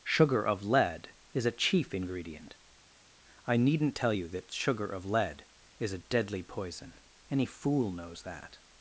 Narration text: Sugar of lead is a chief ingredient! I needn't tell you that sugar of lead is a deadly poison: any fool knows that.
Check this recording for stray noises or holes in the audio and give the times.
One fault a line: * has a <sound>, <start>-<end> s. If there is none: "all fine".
all fine